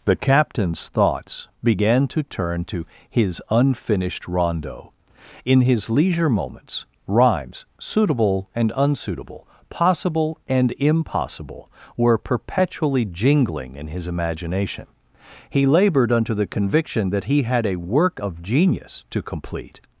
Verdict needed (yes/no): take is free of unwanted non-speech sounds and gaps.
yes